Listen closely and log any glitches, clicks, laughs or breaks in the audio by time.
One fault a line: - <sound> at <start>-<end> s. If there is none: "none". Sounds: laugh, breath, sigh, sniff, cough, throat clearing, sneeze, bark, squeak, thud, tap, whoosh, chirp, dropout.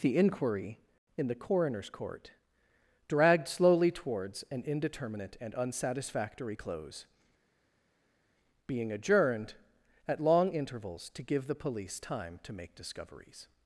none